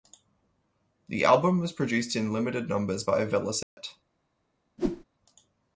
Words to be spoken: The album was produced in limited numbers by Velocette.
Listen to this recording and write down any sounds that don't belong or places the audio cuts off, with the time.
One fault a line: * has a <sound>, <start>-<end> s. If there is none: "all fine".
* has a dropout, 3.6-3.8 s
* has a whoosh, 4.8-5.0 s